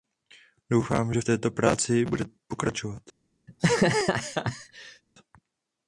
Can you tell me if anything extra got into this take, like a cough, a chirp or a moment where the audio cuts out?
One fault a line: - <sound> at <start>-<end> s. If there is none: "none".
- laugh at 3.5-5.0 s